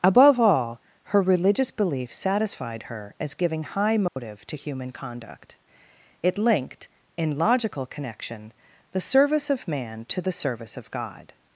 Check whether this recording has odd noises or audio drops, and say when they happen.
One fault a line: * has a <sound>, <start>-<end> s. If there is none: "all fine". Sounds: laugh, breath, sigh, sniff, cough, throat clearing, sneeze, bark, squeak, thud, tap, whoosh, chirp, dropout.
* has a dropout, 4.1-4.2 s